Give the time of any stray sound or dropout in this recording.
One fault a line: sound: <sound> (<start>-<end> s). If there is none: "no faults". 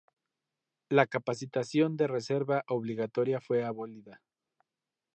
no faults